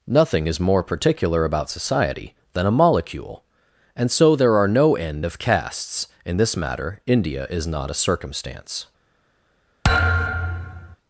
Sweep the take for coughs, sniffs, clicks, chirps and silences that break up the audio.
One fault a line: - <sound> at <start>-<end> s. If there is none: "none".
- thud at 9.8-11.0 s